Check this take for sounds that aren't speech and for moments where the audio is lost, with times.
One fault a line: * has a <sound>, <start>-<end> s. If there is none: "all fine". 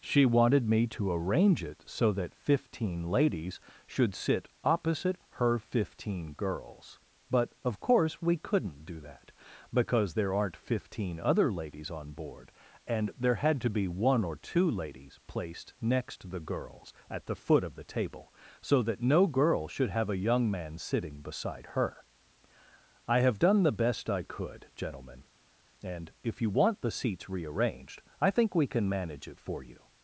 all fine